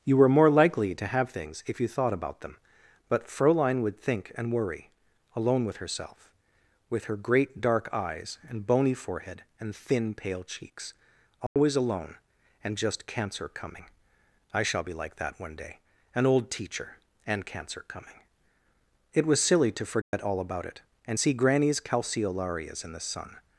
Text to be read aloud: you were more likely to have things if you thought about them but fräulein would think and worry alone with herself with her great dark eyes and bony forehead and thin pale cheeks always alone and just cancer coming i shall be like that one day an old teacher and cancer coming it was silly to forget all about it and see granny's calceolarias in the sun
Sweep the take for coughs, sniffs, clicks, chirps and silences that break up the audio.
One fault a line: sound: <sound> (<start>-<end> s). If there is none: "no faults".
sound: dropout (11.5-11.6 s)
sound: dropout (20.0-20.1 s)